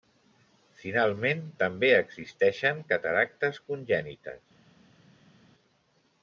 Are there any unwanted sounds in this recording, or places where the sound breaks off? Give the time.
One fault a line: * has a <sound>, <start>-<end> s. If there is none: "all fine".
all fine